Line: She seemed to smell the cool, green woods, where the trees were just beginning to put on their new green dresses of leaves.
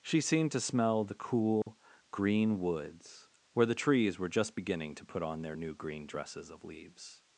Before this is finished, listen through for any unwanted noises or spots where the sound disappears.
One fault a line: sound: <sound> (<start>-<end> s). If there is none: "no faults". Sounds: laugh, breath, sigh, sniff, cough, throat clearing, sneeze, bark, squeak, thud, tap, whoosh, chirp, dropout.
sound: dropout (1.6-1.7 s)